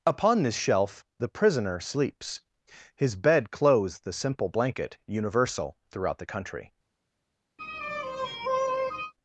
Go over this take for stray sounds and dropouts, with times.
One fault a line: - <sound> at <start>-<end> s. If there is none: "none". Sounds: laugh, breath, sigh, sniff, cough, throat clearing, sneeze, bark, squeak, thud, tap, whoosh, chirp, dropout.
- sigh at 7.6-9.1 s